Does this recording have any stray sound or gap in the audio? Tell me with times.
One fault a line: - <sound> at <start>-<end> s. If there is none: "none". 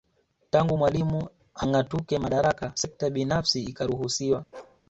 - bark at 4.5-4.8 s